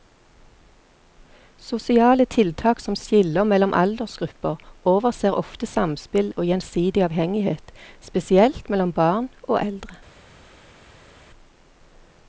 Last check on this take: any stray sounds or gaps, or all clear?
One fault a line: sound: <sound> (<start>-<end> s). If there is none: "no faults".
no faults